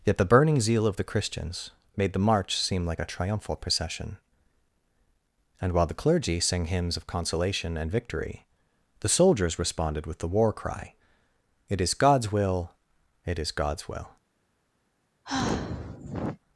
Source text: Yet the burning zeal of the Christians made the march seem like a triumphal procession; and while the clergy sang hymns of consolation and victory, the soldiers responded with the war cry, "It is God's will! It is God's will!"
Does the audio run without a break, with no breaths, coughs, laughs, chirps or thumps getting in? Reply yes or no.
no